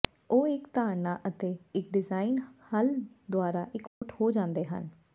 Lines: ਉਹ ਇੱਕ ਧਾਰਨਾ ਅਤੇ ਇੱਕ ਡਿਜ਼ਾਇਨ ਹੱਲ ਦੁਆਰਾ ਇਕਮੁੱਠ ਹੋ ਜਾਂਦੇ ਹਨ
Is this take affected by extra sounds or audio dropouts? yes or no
yes